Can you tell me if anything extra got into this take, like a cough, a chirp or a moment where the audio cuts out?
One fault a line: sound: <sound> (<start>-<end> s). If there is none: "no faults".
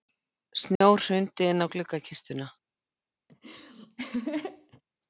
sound: dropout (0.8-0.8 s)
sound: laugh (3.3-4.8 s)